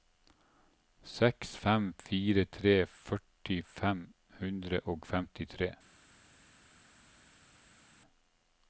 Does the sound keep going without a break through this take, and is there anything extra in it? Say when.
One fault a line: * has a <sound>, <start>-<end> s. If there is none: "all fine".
all fine